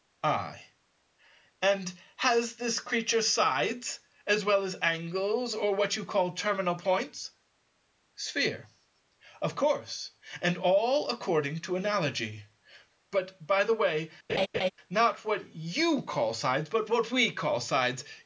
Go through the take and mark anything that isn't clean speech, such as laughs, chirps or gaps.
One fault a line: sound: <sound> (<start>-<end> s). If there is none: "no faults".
sound: laugh (14.3-14.7 s)